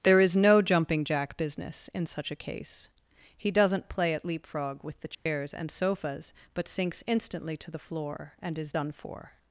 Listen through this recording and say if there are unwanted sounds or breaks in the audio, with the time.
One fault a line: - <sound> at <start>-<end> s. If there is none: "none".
- dropout at 5.1-5.3 s